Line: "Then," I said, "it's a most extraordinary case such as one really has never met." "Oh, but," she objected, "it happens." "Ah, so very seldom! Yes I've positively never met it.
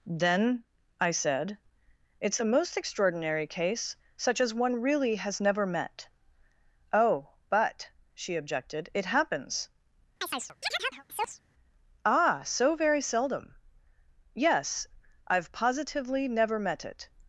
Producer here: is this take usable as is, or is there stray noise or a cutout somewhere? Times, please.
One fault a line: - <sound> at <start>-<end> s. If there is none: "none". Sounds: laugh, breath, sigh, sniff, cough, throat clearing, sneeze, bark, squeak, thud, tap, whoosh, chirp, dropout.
- chirp at 10.2-11.4 s